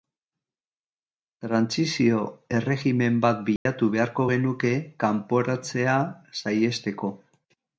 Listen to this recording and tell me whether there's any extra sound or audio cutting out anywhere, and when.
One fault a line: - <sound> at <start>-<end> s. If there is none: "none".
- dropout at 3.6-3.7 s